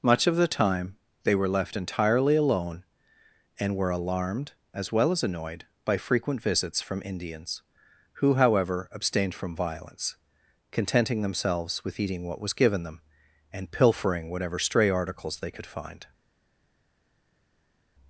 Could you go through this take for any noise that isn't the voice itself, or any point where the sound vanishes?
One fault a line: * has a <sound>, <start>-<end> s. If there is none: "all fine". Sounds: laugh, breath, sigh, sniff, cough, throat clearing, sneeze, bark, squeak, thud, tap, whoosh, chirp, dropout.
all fine